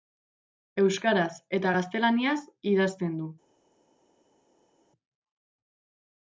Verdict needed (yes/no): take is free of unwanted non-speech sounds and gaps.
yes